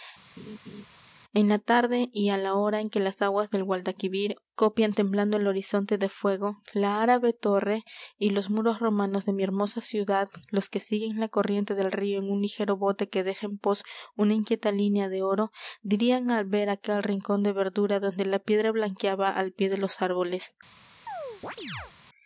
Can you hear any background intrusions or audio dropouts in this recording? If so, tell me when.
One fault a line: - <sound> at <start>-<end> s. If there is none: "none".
- laugh at 0.4-0.9 s
- chirp at 21.1-21.9 s